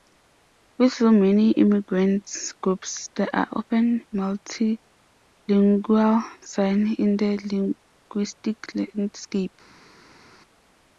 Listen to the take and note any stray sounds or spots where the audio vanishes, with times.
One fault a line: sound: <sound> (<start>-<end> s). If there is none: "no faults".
no faults